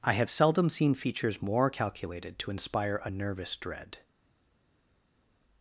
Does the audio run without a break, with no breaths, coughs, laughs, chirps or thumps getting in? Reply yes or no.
yes